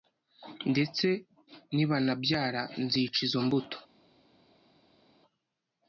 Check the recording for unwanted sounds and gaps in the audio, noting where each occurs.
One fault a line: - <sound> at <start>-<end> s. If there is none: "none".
none